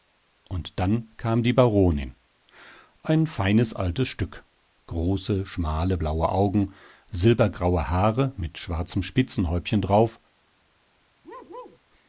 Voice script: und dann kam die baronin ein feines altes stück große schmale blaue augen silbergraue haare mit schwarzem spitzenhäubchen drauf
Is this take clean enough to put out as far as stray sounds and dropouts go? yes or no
no